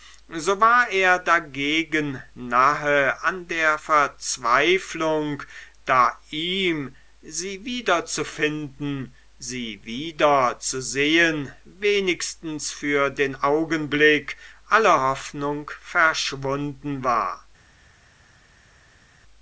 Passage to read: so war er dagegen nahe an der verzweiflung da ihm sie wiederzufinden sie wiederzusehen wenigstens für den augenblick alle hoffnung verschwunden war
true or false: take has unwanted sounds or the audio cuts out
false